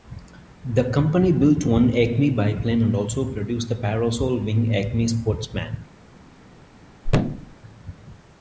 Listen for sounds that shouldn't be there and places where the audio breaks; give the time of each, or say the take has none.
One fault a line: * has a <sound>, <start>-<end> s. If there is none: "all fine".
* has a thud, 7.0-7.6 s